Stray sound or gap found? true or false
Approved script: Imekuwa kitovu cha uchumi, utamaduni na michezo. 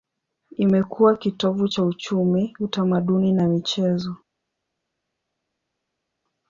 false